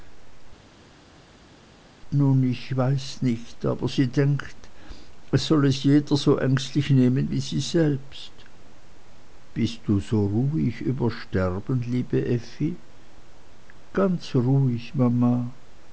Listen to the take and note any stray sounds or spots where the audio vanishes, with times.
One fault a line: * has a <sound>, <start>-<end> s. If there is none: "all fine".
all fine